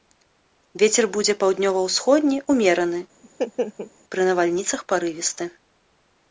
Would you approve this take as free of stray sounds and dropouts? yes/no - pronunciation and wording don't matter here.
no